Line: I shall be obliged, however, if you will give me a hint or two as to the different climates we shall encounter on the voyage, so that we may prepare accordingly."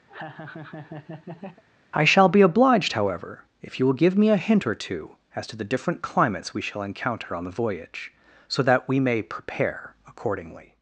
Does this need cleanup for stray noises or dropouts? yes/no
yes